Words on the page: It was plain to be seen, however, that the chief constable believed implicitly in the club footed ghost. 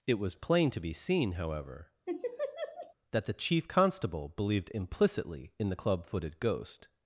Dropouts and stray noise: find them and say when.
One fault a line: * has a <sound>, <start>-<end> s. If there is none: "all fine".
* has a laugh, 2.1-2.9 s